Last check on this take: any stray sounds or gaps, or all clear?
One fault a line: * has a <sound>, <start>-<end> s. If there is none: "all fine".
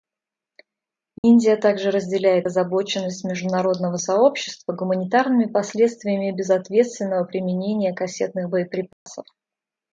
* has a dropout, 1.2-1.2 s
* has a dropout, 8.9-9.1 s